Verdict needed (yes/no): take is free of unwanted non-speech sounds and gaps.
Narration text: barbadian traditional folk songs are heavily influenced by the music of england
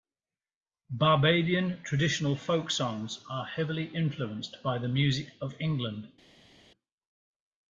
yes